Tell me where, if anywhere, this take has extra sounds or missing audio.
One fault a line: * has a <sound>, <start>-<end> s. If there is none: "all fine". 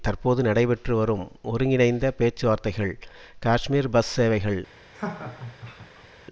* has a laugh, 4.9-6.1 s